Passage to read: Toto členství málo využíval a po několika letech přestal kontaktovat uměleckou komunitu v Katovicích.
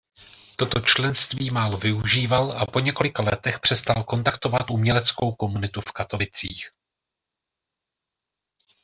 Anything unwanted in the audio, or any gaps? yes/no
no